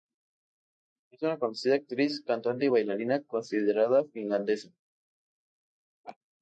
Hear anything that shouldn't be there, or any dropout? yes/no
yes